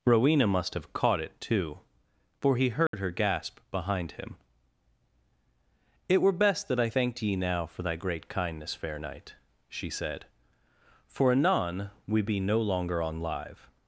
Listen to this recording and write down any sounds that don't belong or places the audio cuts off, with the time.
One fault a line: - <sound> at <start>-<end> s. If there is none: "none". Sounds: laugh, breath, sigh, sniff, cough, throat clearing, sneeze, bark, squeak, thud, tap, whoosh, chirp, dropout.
- dropout at 2.9-2.9 s